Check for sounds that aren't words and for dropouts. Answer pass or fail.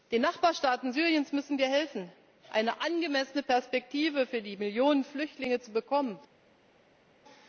pass